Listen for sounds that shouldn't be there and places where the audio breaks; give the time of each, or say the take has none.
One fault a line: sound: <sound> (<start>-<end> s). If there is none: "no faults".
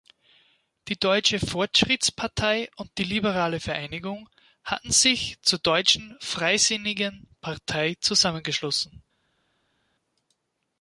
no faults